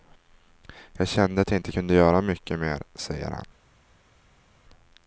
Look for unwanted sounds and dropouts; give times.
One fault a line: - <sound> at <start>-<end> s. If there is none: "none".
none